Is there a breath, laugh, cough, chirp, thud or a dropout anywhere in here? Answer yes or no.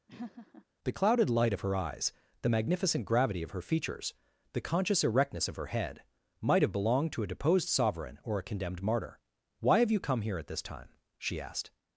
yes